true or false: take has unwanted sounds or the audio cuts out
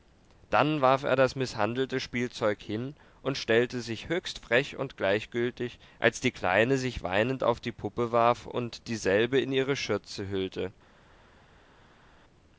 false